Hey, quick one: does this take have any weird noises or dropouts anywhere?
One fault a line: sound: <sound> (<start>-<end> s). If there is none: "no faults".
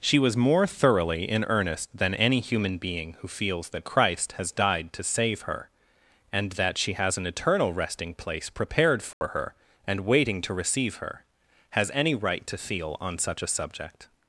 sound: dropout (9.1-9.2 s)